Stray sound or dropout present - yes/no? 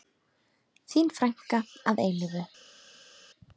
no